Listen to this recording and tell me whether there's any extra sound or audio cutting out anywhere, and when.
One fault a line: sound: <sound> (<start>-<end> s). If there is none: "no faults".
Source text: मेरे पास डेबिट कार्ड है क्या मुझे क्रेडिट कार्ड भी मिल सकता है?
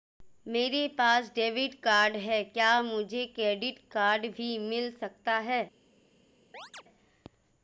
sound: chirp (6.5-6.8 s)